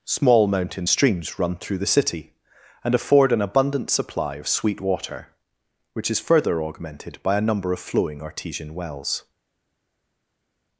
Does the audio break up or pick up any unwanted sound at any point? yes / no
no